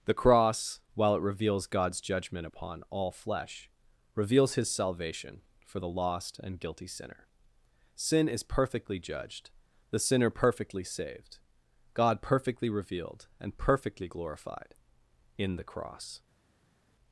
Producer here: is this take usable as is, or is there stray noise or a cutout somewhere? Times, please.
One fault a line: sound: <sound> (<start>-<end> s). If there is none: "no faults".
no faults